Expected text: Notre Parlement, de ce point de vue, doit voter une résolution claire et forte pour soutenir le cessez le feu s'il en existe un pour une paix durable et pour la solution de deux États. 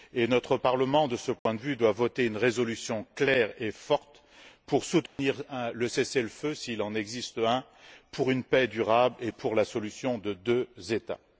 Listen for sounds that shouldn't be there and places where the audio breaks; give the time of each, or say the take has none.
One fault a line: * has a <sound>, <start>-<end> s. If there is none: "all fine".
* has a dropout, 1.4-1.5 s
* has a dropout, 5.1-5.2 s